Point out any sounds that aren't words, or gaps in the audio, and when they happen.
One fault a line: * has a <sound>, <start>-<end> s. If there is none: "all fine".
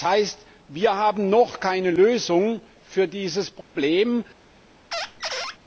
* has a dropout, 3.6-3.8 s
* has a squeak, 4.9-5.6 s